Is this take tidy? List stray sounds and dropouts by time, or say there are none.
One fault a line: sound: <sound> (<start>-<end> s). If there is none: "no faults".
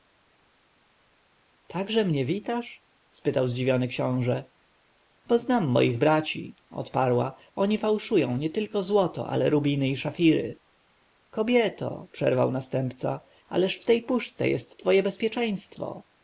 no faults